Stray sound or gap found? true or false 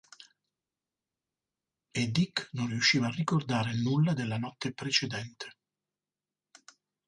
false